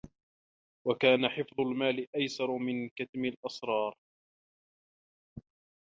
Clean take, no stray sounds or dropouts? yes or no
yes